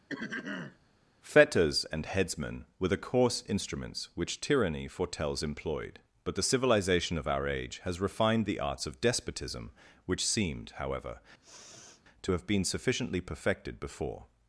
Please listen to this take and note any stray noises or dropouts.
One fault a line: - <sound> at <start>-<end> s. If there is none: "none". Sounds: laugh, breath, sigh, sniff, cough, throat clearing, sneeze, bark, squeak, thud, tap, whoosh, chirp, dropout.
- throat clearing at 0.1-0.8 s
- sniff at 11.4-12.0 s